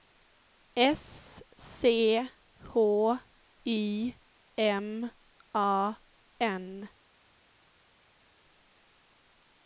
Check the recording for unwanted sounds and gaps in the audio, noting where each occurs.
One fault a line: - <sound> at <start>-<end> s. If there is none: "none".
none